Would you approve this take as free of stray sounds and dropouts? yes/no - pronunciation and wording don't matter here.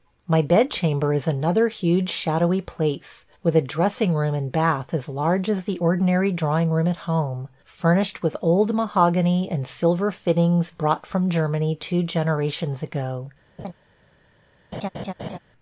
no